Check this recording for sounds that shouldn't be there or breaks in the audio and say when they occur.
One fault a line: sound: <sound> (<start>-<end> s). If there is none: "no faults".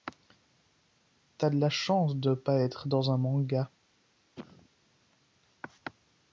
sound: cough (4.4-4.7 s)